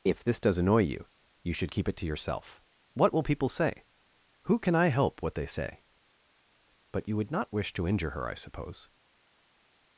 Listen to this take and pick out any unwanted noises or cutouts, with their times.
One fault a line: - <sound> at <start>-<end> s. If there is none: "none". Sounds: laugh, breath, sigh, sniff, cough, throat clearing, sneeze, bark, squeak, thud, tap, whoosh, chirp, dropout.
none